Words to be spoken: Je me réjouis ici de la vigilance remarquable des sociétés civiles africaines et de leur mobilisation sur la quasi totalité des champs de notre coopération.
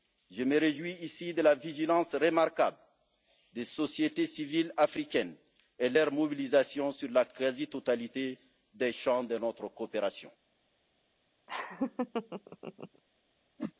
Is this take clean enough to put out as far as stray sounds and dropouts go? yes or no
no